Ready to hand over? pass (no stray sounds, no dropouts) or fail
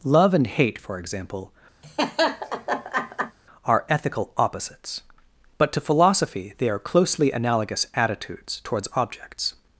fail